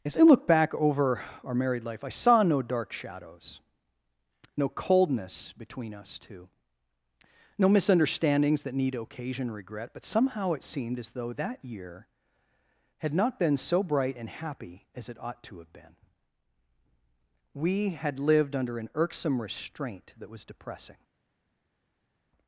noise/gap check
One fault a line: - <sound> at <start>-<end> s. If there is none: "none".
none